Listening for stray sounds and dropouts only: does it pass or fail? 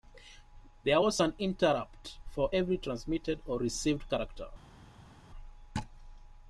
pass